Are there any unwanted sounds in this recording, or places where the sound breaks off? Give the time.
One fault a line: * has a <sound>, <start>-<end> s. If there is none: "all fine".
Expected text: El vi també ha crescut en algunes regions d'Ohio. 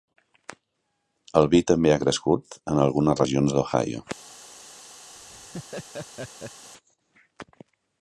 * has a laugh, 5.1-6.7 s